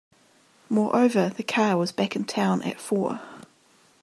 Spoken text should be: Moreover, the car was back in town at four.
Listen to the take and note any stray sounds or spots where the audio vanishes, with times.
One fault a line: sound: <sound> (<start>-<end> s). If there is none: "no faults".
no faults